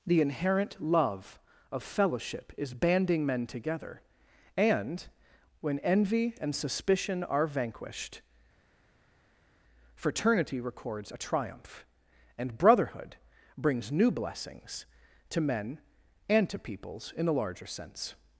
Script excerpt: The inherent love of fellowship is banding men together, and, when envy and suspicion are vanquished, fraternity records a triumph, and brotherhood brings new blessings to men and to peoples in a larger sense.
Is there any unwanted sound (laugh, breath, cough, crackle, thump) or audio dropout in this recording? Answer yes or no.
no